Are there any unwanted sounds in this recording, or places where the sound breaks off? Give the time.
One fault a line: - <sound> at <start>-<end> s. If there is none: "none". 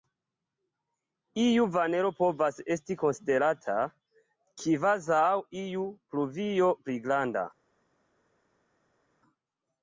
none